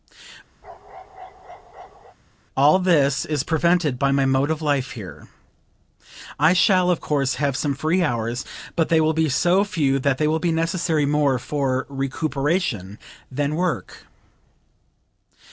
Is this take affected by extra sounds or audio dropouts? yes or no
yes